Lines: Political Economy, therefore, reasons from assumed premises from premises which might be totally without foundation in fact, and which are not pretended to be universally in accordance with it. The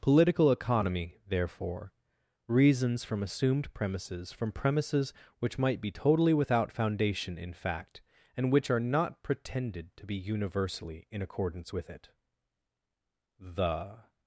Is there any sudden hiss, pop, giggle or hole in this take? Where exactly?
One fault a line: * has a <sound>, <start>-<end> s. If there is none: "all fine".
all fine